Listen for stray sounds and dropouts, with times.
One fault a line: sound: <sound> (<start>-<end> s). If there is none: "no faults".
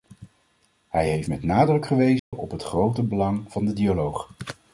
sound: dropout (2.2-2.3 s)